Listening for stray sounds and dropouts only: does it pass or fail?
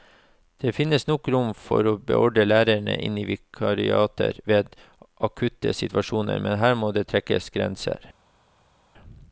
pass